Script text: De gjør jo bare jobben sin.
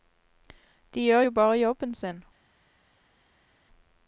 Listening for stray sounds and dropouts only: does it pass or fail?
pass